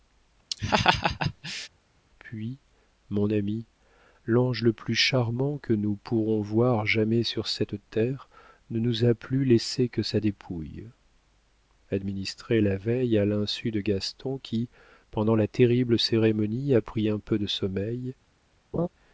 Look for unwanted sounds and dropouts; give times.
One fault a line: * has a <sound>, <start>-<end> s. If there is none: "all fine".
* has a laugh, 0.5-1.7 s
* has a laugh, 18.7-18.9 s